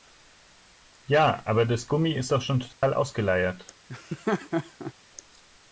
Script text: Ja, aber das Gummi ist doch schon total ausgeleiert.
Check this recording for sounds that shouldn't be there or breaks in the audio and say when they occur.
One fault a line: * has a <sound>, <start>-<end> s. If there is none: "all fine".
* has a dropout, 2.7-2.8 s
* has a laugh, 3.9-4.9 s